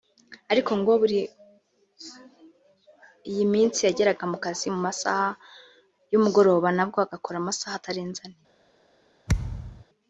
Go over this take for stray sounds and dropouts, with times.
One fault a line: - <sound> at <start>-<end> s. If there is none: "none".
- thud at 9.3-9.8 s